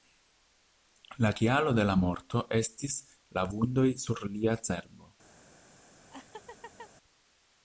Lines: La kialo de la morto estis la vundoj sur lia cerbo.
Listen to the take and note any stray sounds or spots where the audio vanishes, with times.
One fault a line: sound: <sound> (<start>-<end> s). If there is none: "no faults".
sound: laugh (6.1-6.9 s)